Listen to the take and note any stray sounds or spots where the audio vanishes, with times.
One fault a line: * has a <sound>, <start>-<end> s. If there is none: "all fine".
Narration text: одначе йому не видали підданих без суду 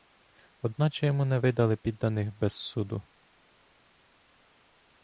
all fine